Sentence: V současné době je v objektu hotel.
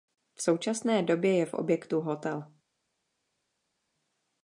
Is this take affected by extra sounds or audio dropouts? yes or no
no